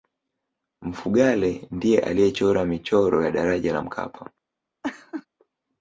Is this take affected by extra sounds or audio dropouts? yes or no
yes